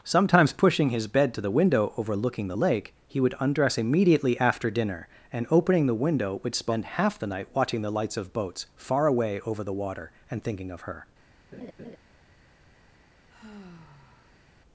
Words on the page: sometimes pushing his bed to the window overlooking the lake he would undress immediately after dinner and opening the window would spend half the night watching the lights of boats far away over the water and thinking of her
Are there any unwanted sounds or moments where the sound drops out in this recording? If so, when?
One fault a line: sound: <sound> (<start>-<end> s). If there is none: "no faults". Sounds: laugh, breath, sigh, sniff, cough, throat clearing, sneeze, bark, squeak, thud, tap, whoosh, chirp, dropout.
sound: laugh (11.5-12.0 s)
sound: sigh (13.3-14.5 s)